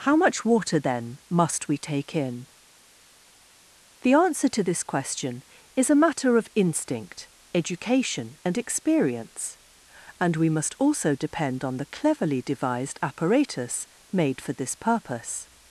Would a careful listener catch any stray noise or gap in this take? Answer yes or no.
no